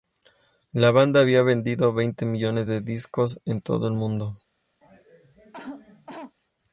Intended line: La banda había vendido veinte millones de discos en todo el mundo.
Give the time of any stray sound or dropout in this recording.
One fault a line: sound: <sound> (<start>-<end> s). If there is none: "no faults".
sound: cough (4.8-6.3 s)